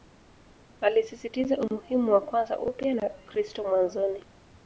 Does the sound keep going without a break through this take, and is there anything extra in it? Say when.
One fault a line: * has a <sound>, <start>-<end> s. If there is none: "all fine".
all fine